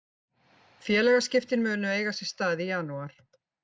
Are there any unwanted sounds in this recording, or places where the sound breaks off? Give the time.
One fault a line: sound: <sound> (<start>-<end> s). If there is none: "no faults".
no faults